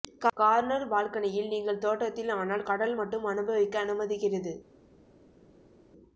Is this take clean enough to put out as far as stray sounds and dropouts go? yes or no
yes